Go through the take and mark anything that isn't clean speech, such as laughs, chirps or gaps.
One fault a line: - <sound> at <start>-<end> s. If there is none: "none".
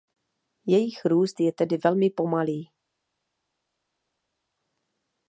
none